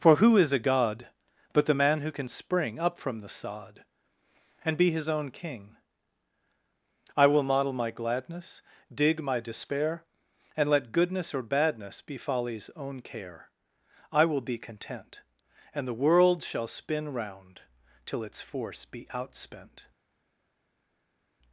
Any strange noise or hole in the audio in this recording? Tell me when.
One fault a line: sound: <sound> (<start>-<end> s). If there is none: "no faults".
no faults